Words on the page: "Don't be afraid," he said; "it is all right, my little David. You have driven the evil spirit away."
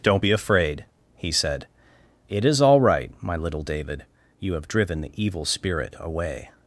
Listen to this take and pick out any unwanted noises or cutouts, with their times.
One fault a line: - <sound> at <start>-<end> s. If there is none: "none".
none